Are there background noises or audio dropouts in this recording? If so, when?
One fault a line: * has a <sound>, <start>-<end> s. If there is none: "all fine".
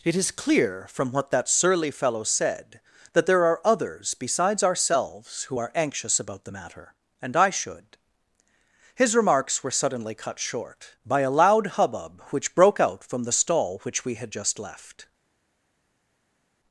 all fine